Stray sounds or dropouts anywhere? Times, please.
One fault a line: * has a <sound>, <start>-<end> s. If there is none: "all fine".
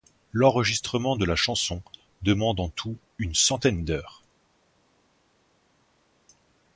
all fine